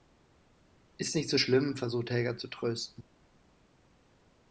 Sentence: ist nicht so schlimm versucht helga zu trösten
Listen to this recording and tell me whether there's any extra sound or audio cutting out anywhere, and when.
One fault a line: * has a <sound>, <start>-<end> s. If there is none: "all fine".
all fine